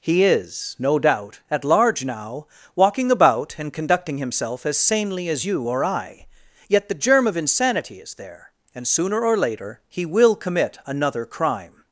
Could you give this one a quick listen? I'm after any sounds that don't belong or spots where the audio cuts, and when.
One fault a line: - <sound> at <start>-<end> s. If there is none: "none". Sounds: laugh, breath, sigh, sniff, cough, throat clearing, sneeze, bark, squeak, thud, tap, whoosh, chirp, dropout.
none